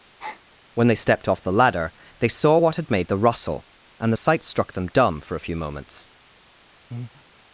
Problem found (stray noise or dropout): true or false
true